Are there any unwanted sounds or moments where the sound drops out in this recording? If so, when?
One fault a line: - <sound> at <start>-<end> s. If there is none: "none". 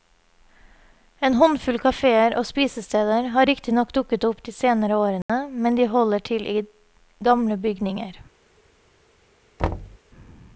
- dropout at 5.2-5.3 s
- thud at 9.6-10.0 s